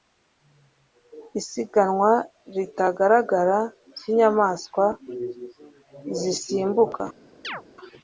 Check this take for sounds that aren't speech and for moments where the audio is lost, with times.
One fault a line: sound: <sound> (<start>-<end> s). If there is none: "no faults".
sound: chirp (7.4-7.6 s)